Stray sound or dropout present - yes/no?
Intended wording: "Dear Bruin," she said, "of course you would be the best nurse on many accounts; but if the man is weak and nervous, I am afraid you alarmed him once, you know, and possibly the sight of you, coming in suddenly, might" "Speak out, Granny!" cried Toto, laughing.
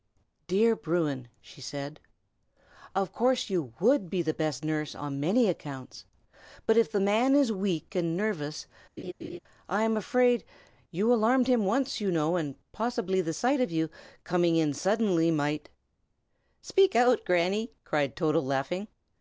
yes